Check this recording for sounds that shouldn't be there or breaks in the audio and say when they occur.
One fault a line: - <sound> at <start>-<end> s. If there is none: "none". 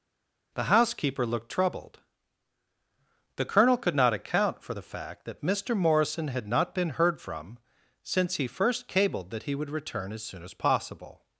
none